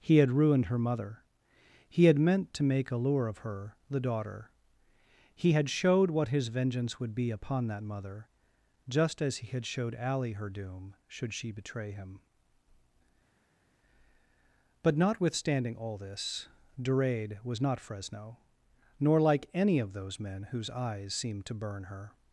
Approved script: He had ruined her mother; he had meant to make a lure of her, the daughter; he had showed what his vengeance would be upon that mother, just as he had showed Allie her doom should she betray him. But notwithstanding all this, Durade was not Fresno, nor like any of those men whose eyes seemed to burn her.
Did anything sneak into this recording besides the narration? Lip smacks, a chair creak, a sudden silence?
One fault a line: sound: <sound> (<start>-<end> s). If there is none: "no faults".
no faults